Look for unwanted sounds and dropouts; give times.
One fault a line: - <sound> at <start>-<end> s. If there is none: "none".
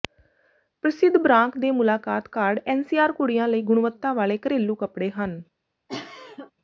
- cough at 5.9-6.5 s